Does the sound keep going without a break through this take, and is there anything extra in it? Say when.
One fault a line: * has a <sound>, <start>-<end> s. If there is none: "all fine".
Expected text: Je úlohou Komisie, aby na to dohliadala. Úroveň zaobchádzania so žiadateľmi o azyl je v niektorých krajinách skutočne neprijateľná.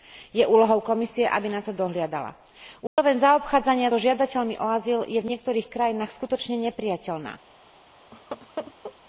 * has a dropout, 2.9-3.0 s
* has a laugh, 8.1-9.0 s